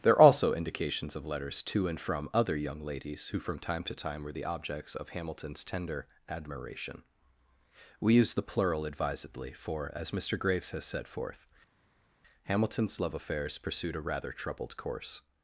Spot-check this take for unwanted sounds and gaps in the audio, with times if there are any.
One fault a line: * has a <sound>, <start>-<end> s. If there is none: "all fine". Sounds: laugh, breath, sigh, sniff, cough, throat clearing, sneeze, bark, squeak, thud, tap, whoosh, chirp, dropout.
all fine